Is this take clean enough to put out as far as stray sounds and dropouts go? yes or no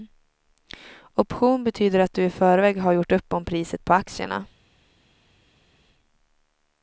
yes